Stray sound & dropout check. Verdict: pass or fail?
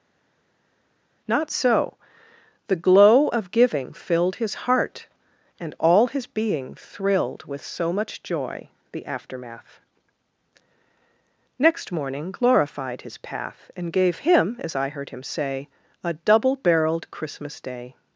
pass